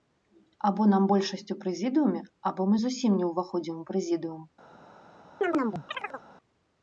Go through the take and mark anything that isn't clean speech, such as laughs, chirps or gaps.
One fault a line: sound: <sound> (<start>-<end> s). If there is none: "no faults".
sound: chirp (5.4-6.2 s)